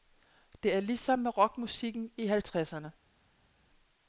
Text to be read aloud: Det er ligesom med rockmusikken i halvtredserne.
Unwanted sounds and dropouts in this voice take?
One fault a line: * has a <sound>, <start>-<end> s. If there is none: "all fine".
all fine